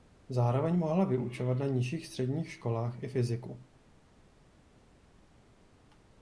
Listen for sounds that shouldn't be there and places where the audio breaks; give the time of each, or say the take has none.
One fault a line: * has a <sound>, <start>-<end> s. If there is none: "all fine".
all fine